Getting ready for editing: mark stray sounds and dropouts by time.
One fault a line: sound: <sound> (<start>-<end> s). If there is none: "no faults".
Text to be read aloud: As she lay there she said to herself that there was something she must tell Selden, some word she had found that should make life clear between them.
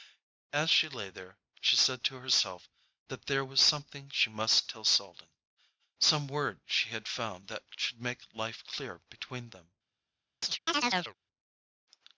sound: chirp (10.4-11.1 s)